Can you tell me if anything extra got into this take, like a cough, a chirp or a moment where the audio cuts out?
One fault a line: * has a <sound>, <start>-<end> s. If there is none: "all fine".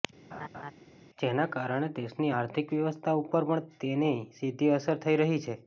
* has a laugh, 0.3-0.7 s